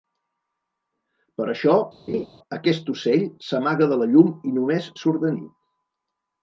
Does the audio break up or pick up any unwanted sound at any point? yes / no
yes